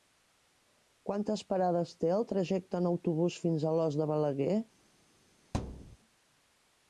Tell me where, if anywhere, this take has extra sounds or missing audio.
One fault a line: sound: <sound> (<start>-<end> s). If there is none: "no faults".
sound: thud (5.5-6.0 s)